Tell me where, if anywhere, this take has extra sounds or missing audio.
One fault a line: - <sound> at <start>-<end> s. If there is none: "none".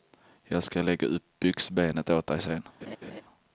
- laugh at 2.8-3.2 s